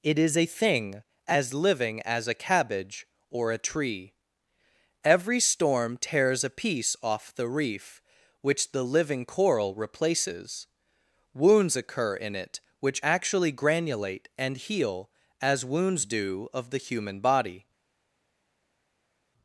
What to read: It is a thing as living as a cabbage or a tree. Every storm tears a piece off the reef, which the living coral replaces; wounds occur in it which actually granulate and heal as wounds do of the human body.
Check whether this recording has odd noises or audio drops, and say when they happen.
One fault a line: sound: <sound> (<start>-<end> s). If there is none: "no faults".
no faults